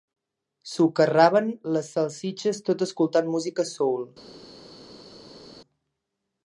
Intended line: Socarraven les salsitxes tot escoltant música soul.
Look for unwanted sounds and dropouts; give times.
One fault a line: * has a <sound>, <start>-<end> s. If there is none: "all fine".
all fine